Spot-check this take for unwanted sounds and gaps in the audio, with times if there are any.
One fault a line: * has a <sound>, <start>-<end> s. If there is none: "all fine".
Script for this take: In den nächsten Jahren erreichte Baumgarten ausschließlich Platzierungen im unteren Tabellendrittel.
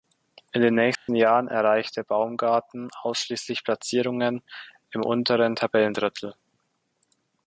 * has a dropout, 0.9-1.1 s